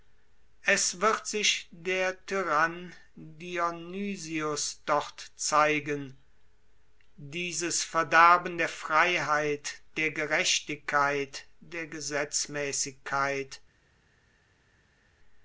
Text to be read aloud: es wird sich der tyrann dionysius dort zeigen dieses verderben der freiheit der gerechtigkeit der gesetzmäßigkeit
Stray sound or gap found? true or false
false